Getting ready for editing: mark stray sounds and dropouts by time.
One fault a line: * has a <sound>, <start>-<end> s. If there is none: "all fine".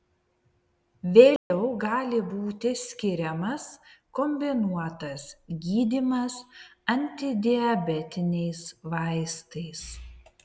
* has a dropout, 1.4-1.5 s